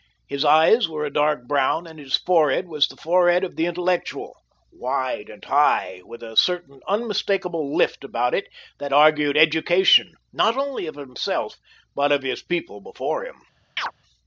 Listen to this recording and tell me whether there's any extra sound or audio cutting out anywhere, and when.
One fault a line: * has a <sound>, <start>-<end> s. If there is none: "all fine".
* has a chirp, 13.8-13.9 s